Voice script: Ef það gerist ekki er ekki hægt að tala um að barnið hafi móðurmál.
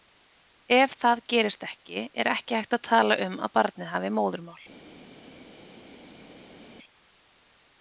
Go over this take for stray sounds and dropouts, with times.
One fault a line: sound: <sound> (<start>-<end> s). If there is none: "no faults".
no faults